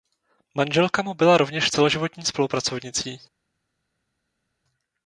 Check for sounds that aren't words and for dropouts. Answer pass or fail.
pass